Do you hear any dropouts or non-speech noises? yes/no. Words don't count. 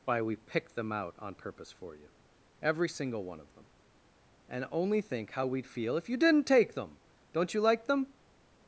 no